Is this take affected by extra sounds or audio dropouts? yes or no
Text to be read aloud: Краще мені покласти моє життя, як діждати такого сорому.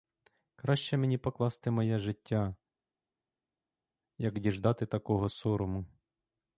no